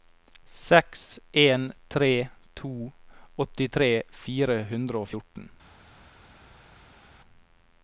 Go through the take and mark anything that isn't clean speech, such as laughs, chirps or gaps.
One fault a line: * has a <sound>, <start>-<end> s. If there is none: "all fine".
all fine